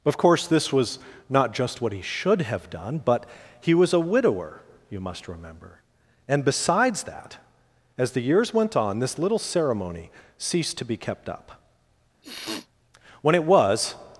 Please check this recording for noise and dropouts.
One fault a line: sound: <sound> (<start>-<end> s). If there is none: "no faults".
sound: sniff (12.2-12.7 s)